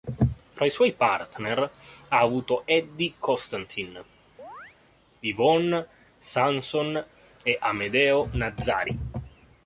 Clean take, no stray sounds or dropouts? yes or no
no